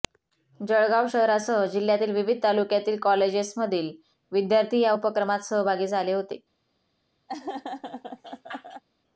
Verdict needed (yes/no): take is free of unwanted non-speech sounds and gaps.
no